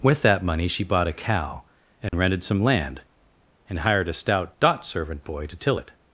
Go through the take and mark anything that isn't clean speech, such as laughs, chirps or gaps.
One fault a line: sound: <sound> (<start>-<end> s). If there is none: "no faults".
sound: dropout (2.1-2.1 s)